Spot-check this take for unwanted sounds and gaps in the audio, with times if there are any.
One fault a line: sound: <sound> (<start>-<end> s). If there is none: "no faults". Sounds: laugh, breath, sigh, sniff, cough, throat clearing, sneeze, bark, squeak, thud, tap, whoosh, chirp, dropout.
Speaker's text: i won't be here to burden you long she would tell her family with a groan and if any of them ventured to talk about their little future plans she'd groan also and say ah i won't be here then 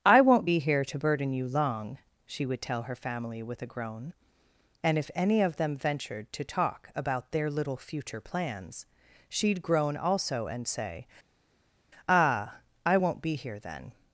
no faults